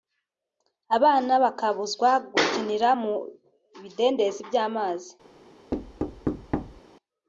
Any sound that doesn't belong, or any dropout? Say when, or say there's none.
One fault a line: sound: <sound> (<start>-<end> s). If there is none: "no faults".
sound: thud (5.7-6.8 s)